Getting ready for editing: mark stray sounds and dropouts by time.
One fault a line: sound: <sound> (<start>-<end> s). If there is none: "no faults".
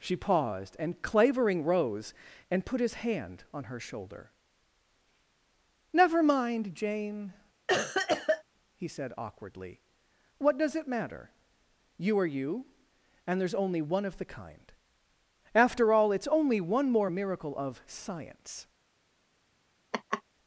sound: cough (7.7-8.4 s)
sound: laugh (19.9-20.2 s)